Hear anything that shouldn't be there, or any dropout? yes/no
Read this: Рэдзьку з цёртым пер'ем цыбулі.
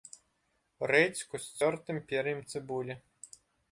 no